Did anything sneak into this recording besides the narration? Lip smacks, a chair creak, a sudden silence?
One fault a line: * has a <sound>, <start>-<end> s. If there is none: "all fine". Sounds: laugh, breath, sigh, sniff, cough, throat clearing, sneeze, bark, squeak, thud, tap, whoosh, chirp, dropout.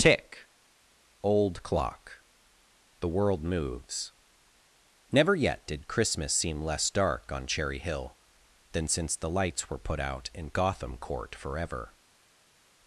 all fine